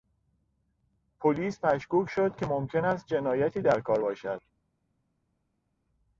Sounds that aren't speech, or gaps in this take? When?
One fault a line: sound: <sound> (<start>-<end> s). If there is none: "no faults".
no faults